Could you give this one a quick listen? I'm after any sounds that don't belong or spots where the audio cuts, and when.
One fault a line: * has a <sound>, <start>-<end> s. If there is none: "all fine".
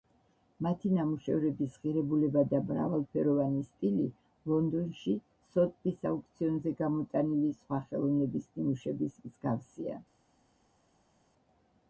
all fine